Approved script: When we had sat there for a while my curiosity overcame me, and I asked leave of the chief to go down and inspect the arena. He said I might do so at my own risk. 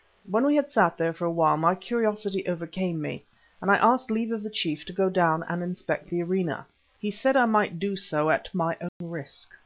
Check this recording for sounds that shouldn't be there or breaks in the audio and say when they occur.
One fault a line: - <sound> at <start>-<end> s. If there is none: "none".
- dropout at 8.9-9.0 s